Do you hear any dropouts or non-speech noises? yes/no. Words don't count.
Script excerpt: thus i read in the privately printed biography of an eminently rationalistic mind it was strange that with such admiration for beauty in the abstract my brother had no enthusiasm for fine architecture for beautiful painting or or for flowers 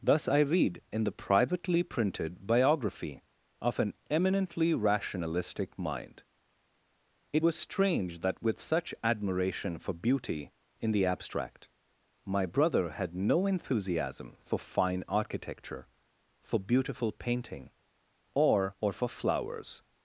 no